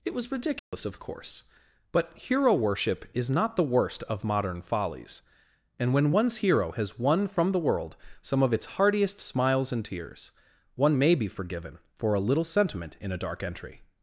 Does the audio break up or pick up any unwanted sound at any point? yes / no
yes